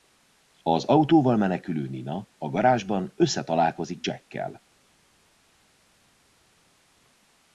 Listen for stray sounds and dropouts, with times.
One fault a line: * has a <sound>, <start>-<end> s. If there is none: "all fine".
all fine